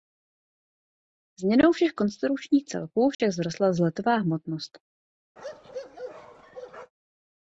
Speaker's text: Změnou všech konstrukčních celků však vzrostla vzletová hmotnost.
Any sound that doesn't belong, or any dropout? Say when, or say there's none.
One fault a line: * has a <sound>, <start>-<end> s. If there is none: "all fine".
* has a dropout, 3.1-3.2 s
* has a bark, 5.4-6.9 s